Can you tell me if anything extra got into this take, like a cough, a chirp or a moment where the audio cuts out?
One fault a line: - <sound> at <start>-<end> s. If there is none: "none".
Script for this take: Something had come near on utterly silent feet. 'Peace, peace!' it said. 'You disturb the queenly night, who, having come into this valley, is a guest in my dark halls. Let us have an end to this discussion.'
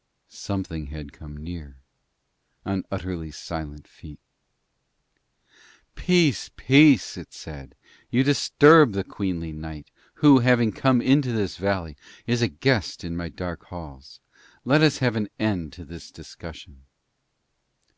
none